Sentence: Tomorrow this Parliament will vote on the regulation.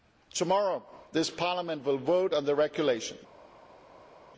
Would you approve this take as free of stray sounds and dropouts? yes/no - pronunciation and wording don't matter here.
yes